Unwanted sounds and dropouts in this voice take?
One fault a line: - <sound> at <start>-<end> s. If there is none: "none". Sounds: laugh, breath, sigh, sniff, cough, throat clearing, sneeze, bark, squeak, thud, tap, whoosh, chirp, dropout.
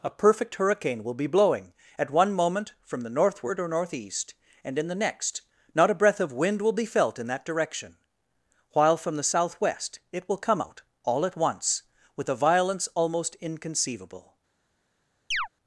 - chirp at 15.3-15.5 s